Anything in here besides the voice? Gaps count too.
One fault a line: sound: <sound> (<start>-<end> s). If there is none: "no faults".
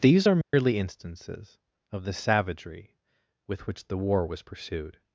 sound: dropout (0.4-0.5 s)